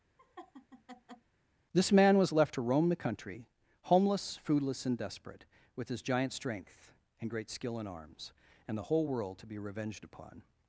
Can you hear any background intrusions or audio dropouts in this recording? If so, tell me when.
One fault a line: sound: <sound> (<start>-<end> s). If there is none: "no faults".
sound: laugh (0.2-1.3 s)